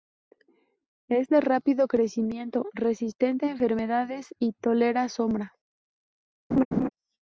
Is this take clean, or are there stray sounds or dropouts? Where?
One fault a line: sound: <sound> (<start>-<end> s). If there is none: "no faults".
sound: laugh (6.5-6.9 s)